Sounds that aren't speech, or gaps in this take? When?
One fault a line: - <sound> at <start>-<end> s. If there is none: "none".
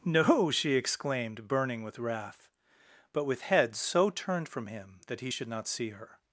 none